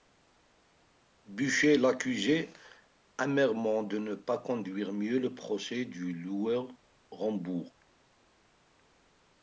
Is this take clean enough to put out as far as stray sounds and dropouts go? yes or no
yes